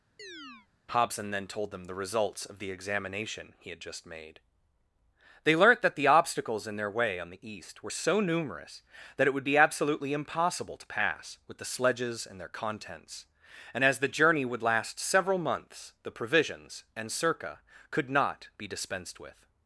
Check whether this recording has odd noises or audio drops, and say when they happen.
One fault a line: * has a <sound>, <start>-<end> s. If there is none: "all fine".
* has a chirp, 0.2-0.7 s